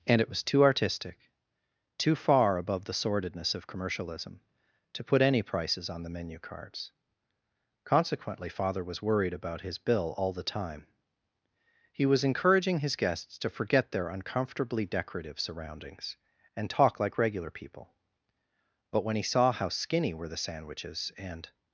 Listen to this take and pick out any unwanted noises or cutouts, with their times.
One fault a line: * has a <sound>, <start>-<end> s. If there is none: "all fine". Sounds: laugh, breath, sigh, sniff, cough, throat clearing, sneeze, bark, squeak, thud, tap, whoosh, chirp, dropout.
all fine